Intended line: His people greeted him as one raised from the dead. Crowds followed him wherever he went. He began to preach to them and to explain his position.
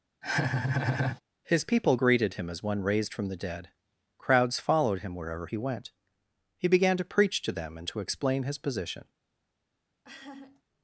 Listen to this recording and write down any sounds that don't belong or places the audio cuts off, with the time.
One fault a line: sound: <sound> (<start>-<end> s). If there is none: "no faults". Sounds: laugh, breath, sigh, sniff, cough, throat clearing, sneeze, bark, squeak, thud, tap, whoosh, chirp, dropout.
sound: laugh (0.2-1.2 s)
sound: laugh (10.0-10.6 s)